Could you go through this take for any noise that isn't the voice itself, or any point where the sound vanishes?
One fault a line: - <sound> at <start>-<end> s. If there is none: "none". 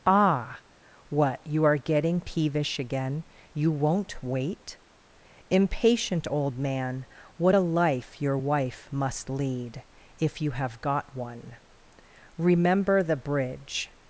none